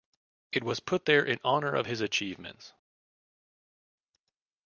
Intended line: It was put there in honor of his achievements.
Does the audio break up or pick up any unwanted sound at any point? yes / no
no